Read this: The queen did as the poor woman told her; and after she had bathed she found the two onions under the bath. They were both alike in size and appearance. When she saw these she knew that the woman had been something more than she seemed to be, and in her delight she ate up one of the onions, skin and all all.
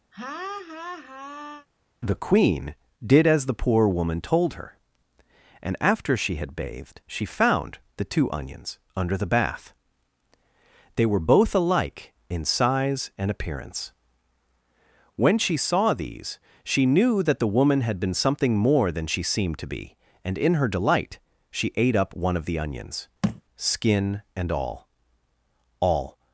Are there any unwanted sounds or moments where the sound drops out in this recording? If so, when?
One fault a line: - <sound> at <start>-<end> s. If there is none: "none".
- laugh at 0.1-1.7 s
- thud at 23.2-23.4 s